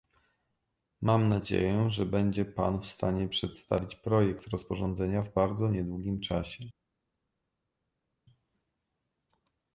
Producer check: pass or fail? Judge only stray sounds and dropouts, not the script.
pass